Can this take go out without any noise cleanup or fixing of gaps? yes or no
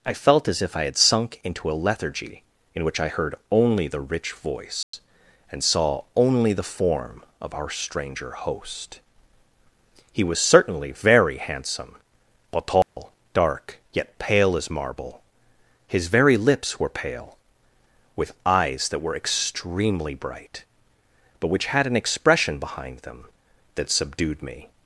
no